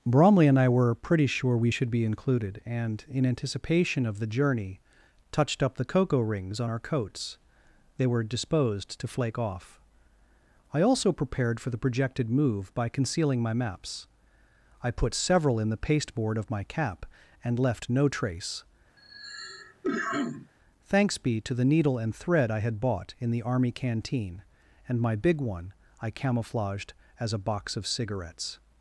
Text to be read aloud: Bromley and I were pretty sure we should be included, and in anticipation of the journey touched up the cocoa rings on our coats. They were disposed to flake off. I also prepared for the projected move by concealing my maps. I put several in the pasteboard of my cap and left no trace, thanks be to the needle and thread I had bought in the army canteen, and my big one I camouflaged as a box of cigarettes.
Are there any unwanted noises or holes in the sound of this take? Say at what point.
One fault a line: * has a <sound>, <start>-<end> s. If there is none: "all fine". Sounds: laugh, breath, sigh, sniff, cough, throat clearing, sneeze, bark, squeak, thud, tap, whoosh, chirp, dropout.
* has a cough, 19.0-20.5 s